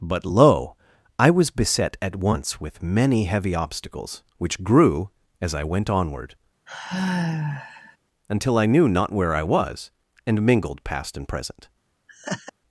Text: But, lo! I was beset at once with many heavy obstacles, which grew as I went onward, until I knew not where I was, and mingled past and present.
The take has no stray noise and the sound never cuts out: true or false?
false